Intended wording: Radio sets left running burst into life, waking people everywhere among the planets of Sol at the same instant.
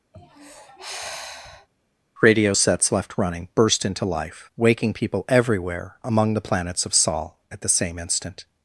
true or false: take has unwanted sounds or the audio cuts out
true